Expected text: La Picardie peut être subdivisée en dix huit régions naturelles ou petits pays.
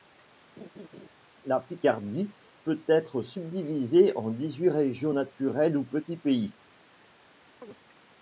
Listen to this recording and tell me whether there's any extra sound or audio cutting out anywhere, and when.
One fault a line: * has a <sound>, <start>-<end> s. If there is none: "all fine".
* has a laugh, 0.6-1.1 s
* has a chirp, 7.6-7.8 s